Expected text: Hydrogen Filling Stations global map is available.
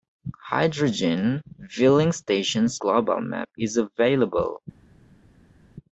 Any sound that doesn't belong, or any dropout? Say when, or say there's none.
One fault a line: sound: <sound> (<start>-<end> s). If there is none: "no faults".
no faults